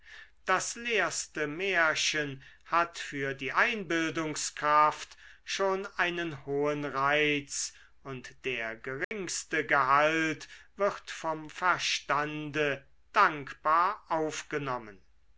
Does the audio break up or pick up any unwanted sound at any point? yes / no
yes